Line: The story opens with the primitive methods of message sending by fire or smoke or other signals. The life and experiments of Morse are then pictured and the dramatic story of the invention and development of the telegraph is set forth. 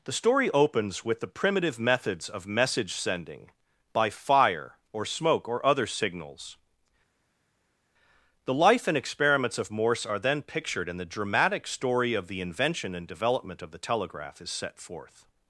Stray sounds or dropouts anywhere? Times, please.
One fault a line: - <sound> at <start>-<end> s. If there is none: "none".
none